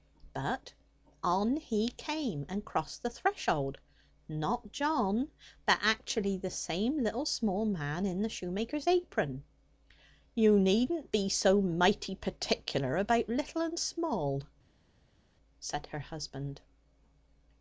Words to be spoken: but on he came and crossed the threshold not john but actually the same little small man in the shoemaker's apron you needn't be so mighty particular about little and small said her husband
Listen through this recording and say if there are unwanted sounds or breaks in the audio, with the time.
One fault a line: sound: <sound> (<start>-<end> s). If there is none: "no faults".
no faults